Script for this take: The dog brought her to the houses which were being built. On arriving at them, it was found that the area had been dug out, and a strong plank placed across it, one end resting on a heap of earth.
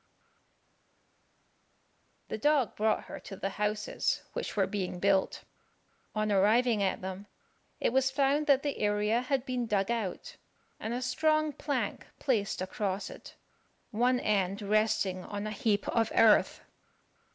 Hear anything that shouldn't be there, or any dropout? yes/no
no